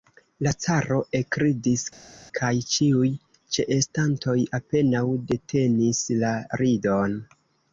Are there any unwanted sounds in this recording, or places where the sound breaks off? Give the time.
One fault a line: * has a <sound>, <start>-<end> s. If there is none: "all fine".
all fine